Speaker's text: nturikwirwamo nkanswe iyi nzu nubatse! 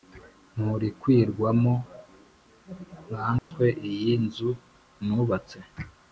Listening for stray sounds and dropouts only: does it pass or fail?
fail